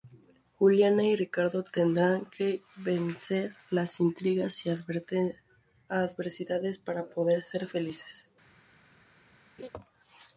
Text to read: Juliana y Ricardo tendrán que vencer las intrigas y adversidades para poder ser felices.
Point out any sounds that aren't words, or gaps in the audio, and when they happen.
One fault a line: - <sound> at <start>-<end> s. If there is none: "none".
- laugh at 9.6-9.7 s